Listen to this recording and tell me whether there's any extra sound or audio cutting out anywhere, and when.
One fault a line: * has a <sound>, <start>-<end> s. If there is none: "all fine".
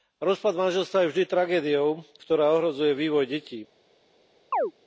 * has a chirp, 4.5-4.7 s